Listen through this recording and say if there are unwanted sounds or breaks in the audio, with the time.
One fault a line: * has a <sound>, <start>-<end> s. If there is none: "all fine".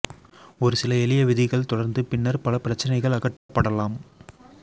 * has a dropout, 3.4-3.5 s